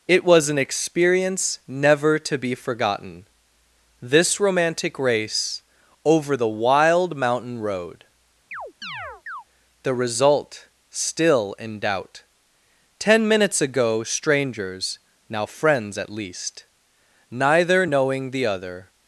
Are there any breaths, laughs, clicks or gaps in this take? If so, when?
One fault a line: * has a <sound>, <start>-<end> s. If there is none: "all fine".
* has a chirp, 8.5-9.4 s